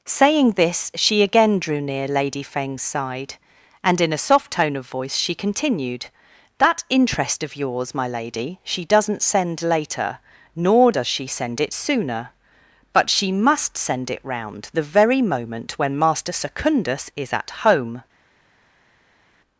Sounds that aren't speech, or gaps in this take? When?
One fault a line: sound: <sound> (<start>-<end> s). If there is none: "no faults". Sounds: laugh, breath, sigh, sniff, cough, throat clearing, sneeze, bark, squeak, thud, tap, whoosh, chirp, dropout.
no faults